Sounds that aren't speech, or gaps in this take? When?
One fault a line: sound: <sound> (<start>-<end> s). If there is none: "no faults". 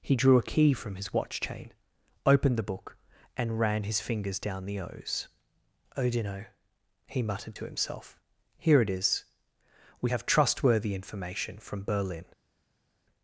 no faults